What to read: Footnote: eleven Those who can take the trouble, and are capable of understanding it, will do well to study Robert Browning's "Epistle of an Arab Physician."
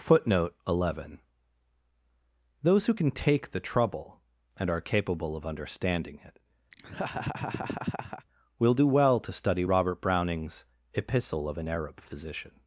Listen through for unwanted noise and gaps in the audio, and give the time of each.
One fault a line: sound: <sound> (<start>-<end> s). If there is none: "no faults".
sound: laugh (6.7-8.3 s)